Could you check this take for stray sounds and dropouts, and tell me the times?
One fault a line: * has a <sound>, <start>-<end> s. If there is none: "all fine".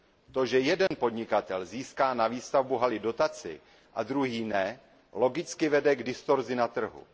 * has a dropout, 0.9-0.9 s